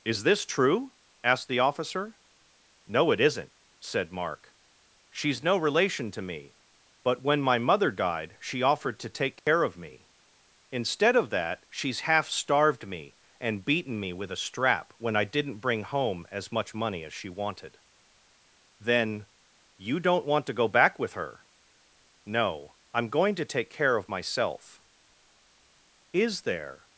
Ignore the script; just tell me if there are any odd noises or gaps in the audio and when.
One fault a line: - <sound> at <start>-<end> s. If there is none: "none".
- dropout at 9.4-9.5 s